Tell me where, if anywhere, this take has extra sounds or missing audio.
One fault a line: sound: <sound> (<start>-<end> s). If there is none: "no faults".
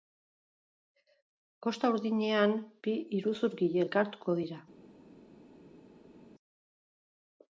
no faults